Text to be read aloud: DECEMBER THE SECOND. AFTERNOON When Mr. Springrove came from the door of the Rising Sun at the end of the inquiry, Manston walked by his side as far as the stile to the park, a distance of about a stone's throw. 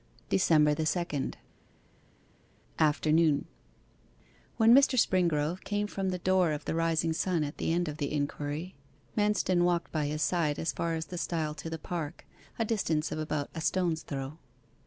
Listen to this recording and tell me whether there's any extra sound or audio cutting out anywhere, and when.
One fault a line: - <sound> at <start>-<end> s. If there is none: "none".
none